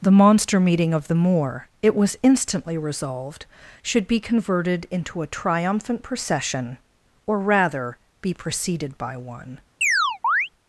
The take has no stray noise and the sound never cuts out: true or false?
false